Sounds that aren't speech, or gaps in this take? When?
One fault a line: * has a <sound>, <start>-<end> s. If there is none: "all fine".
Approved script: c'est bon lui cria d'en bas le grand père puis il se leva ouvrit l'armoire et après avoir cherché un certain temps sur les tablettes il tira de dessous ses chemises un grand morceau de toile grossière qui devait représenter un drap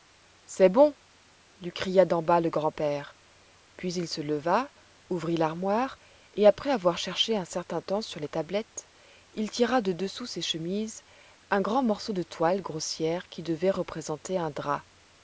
all fine